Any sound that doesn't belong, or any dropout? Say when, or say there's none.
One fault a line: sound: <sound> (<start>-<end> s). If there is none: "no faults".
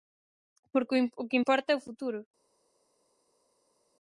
no faults